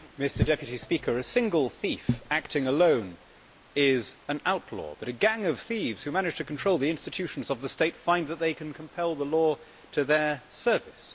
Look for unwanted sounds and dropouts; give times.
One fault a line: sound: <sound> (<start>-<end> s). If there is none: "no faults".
no faults